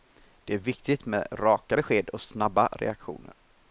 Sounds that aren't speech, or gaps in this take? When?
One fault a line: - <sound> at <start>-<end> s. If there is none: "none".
none